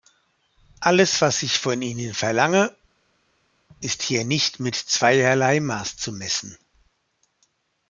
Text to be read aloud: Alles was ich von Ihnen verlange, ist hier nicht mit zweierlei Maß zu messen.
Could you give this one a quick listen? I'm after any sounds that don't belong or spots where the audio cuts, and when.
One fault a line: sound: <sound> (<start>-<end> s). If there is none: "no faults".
no faults